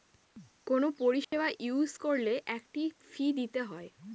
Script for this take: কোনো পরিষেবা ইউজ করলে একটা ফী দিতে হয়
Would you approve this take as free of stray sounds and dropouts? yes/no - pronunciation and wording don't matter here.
no